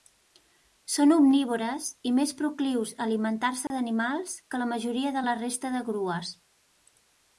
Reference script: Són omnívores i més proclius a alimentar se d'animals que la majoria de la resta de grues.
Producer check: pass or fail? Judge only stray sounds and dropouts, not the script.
fail